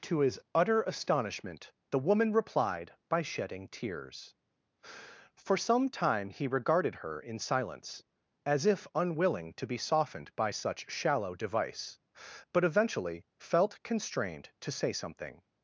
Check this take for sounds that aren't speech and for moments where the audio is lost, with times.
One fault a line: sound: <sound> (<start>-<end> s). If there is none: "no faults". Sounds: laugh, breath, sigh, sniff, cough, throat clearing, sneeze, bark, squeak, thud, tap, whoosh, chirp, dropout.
no faults